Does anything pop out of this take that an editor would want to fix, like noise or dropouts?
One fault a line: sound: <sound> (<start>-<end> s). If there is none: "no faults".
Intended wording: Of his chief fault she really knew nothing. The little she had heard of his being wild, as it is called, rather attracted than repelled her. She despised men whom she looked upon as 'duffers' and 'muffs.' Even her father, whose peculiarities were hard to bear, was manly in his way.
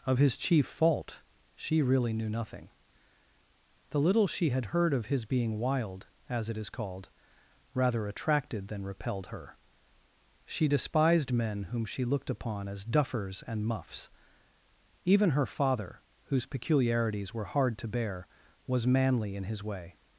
no faults